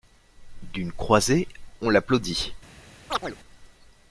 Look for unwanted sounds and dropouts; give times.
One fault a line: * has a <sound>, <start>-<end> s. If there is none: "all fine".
* has a chirp, 3.1-3.4 s